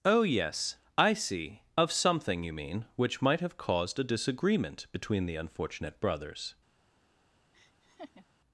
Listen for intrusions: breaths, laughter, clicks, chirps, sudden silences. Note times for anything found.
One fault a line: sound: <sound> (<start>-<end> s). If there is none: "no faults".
sound: laugh (7.5-8.3 s)